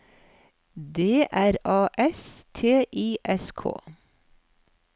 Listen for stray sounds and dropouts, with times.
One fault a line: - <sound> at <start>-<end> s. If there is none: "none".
none